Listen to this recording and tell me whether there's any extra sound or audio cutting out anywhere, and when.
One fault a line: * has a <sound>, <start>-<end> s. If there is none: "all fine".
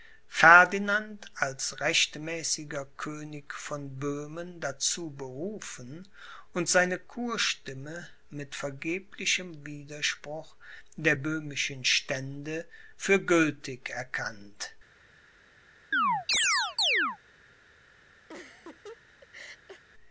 * has a chirp, 15.9-17.2 s
* has a laugh, 18.3-19.8 s